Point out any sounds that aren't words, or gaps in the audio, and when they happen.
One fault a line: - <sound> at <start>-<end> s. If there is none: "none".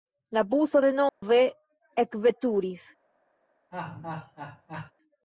- dropout at 1.1-1.2 s
- laugh at 3.7-4.9 s